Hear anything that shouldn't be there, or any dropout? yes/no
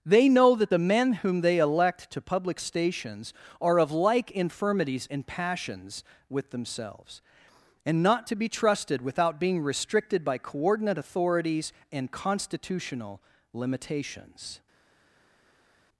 no